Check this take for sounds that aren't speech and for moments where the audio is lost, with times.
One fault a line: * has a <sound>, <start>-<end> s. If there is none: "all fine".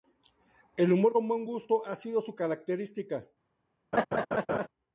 * has a laugh, 3.9-4.7 s